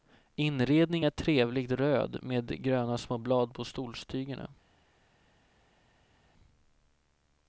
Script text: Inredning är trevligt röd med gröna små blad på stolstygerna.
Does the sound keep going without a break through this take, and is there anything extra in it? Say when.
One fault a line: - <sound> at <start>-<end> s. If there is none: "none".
none